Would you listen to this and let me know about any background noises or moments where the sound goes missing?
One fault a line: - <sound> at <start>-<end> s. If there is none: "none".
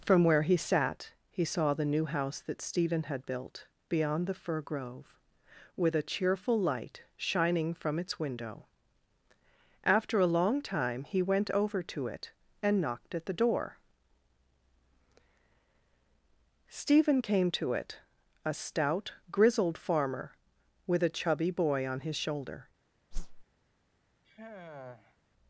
- whoosh at 23.1-23.4 s
- sigh at 24.2-25.2 s